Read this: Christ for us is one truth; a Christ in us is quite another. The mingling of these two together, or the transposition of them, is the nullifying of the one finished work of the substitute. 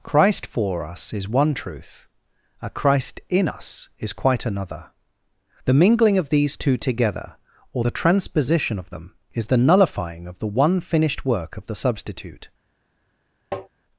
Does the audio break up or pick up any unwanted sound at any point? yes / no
yes